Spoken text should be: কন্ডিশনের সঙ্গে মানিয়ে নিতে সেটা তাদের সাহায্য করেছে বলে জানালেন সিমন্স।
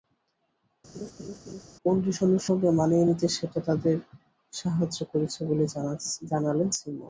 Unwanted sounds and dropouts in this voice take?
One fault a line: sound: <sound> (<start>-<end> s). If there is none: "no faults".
sound: laugh (0.9-1.6 s)